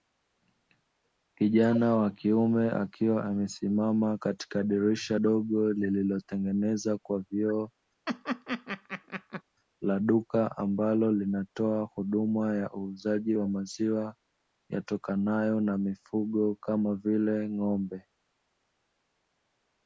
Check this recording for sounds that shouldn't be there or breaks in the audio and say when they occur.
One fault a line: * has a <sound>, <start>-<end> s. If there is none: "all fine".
* has a laugh, 8.1-9.4 s